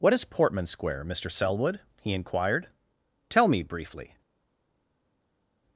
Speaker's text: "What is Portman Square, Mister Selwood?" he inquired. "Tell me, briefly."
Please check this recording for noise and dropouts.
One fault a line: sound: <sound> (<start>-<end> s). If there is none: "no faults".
no faults